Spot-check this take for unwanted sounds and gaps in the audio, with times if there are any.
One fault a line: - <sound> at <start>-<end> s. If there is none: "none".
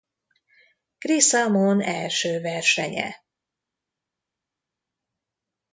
none